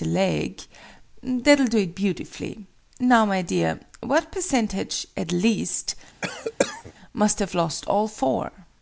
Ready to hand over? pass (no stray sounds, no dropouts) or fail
fail